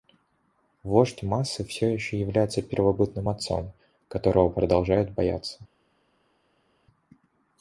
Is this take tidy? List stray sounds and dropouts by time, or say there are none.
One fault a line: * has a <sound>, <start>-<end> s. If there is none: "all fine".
all fine